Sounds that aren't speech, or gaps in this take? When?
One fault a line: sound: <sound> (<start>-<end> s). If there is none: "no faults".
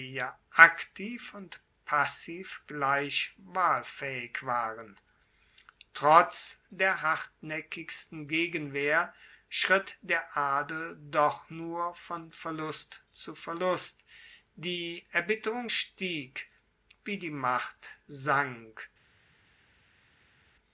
no faults